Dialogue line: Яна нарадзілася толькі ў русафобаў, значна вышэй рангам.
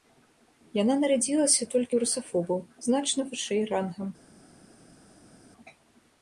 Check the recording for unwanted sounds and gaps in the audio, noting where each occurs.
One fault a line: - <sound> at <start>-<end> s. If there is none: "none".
none